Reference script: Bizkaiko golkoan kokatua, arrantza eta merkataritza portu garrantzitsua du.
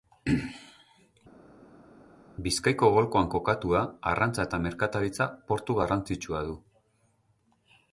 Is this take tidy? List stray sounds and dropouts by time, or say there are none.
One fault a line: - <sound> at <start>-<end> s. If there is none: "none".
none